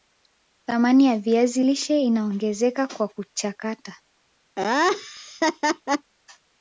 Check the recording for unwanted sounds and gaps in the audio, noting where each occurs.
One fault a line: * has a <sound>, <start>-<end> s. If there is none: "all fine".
* has a laugh, 4.6-6.1 s